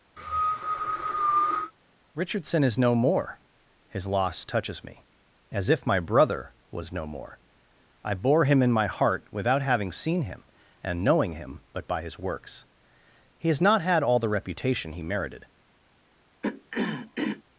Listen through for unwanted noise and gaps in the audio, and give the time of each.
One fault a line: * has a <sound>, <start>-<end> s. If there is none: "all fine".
* has a cough, 0.2-1.7 s
* has a throat clearing, 16.4-17.4 s